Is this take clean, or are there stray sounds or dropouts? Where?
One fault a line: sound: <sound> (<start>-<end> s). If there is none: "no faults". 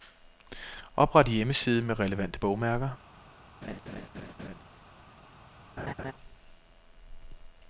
sound: laugh (3.6-4.6 s)
sound: laugh (5.8-6.1 s)